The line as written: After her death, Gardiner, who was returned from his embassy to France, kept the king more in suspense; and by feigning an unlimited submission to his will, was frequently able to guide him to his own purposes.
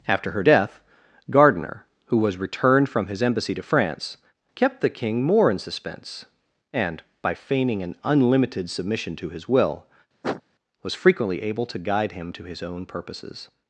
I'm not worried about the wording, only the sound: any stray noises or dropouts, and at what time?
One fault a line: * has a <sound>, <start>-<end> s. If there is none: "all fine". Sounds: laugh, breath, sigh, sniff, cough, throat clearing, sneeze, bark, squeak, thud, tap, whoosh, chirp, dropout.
* has a sniff, 10.2-10.4 s